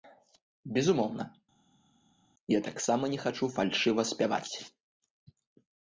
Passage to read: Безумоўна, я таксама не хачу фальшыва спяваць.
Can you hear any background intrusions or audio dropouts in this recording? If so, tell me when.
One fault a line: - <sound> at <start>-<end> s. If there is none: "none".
none